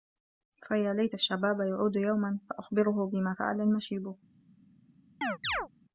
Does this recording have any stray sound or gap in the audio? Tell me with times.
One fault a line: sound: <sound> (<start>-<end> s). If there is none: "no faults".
sound: chirp (5.2-5.7 s)